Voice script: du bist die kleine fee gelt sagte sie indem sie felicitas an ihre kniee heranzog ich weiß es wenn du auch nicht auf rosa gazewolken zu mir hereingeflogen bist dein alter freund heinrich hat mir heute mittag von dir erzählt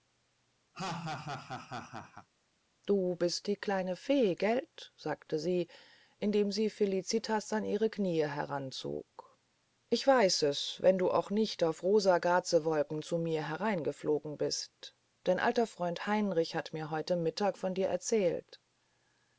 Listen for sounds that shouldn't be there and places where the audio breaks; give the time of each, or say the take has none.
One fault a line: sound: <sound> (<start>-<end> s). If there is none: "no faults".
sound: laugh (0.7-2.3 s)